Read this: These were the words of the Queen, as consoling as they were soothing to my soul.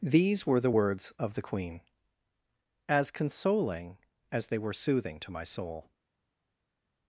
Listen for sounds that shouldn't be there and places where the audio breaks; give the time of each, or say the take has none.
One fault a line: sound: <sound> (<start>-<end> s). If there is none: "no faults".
no faults